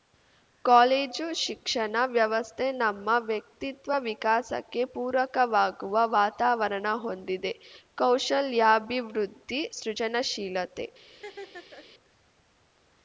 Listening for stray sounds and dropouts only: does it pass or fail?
fail